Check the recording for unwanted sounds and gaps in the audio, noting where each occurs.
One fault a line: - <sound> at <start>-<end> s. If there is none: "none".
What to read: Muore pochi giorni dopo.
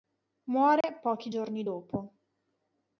- dropout at 0.8-0.8 s